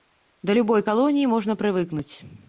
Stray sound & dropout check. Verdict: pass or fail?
pass